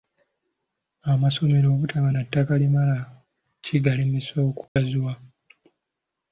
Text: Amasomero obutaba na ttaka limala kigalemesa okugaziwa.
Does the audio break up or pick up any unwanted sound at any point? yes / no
yes